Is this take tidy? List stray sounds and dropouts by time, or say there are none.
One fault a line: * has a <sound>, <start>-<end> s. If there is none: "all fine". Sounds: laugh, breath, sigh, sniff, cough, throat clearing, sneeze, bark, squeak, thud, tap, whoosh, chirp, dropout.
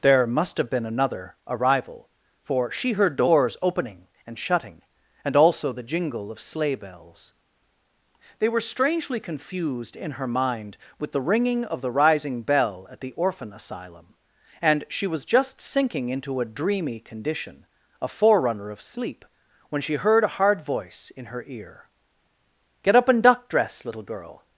all fine